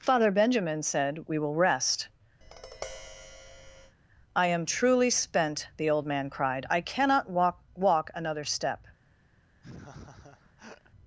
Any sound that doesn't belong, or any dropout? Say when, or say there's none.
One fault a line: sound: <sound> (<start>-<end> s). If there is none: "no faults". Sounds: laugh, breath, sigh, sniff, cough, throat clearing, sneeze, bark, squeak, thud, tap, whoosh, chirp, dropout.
sound: tap (2.4-4.0 s)
sound: laugh (9.6-10.9 s)